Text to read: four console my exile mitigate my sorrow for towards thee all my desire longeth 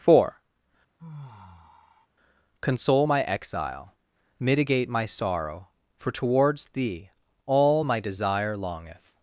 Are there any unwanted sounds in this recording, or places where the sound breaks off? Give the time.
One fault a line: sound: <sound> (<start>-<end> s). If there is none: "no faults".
sound: sigh (1.0-2.1 s)